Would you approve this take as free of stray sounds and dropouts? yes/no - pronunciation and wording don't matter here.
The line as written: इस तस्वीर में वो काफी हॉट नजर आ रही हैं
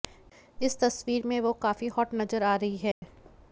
no